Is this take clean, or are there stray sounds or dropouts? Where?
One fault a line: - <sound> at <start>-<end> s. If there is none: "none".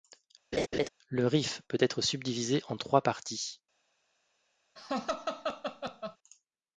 - laugh at 0.5-0.9 s
- laugh at 4.8-6.2 s